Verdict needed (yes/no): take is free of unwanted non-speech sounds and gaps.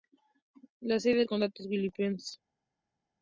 yes